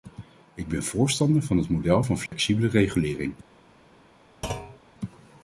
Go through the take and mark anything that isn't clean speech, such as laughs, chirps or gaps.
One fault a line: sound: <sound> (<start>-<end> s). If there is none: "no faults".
sound: dropout (2.3-2.3 s)
sound: thud (4.4-4.8 s)